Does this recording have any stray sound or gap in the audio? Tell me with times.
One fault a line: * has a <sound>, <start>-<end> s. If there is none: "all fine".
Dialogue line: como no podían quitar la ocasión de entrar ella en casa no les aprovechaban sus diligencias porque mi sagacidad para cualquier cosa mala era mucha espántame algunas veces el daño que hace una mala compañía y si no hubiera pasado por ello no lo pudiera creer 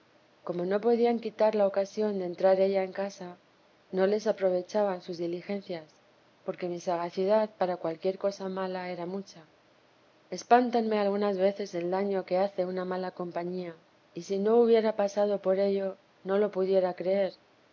all fine